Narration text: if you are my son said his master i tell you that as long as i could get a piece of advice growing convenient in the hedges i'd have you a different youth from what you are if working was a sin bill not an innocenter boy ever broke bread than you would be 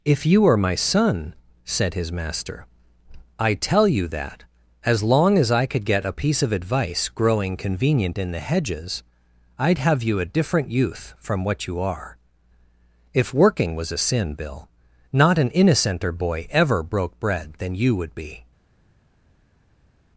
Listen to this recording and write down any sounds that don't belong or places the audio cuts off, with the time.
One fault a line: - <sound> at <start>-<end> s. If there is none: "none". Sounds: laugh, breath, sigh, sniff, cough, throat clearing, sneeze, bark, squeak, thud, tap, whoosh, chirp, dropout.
none